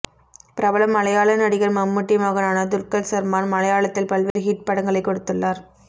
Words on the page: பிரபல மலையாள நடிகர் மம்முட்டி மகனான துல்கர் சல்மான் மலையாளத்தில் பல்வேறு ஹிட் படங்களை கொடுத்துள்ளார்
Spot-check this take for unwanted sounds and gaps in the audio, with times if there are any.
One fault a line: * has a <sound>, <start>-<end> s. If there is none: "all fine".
* has a dropout, 4.3-4.4 s